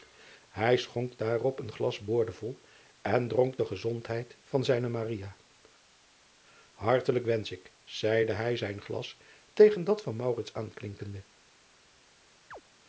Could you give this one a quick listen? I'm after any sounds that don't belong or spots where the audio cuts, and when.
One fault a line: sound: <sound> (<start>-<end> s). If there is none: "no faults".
sound: chirp (12.5-12.6 s)